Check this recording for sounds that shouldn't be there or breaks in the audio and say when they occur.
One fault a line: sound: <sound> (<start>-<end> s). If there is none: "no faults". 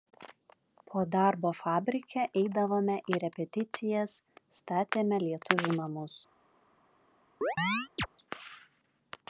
sound: chirp (7.4-8.1 s)